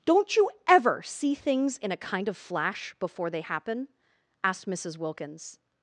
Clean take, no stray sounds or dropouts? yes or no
yes